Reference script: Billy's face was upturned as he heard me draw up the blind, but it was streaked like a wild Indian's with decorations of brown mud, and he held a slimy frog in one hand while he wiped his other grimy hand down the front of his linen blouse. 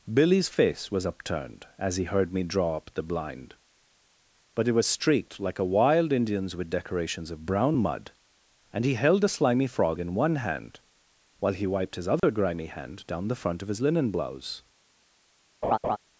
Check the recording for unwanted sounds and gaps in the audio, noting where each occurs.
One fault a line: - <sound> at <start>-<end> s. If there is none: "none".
- dropout at 12.2-12.2 s
- laugh at 15.6-16.0 s